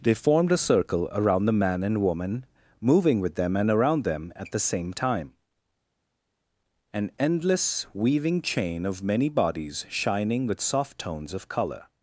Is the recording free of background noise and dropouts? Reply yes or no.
yes